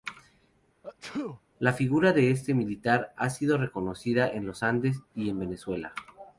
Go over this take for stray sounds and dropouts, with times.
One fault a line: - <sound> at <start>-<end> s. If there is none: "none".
- sneeze at 0.8-1.4 s